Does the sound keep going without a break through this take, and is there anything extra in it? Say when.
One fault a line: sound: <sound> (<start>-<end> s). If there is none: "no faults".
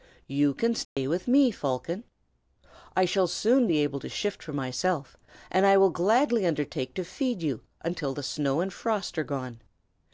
sound: dropout (0.8-1.0 s)